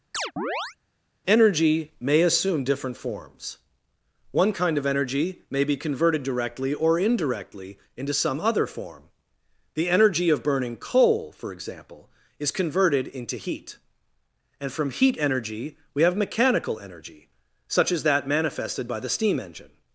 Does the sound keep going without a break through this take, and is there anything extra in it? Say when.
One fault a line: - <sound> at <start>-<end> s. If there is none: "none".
- chirp at 0.1-0.8 s